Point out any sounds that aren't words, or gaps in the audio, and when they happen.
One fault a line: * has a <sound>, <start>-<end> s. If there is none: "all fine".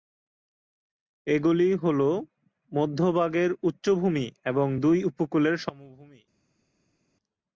all fine